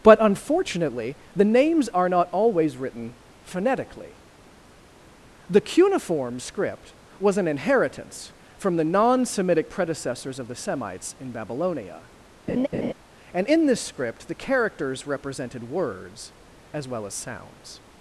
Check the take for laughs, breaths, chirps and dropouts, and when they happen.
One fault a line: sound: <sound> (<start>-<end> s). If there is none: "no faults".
sound: laugh (12.5-12.9 s)